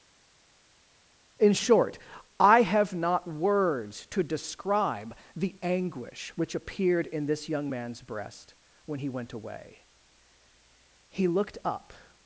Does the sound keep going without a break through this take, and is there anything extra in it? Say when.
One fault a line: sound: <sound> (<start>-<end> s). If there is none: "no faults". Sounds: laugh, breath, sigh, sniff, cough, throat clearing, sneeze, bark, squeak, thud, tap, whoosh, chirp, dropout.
no faults